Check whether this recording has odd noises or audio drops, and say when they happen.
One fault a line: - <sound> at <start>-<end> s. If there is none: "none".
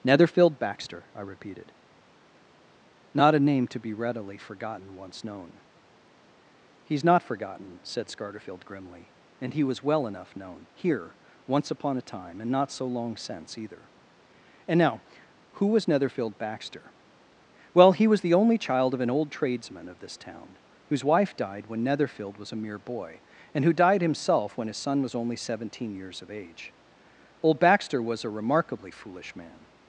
none